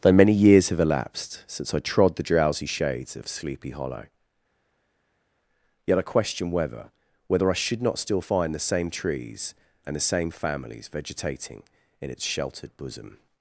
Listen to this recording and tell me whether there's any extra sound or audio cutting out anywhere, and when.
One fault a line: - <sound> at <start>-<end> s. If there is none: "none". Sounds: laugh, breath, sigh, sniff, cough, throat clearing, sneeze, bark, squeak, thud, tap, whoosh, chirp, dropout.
none